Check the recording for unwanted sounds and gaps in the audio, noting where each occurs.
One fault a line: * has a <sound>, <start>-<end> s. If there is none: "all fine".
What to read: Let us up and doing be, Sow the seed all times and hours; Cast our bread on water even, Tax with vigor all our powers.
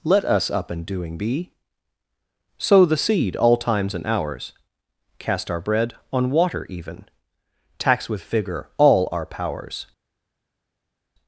all fine